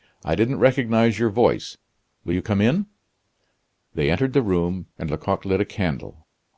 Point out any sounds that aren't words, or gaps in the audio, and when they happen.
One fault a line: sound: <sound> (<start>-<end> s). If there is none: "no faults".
no faults